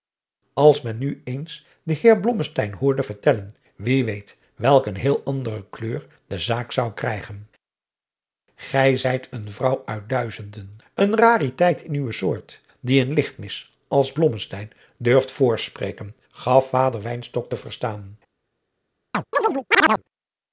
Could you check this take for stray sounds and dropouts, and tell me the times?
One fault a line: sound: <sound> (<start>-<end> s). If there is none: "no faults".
sound: chirp (19.1-20.0 s)